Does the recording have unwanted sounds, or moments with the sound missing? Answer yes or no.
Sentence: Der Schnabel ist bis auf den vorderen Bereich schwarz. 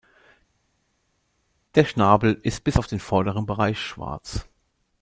no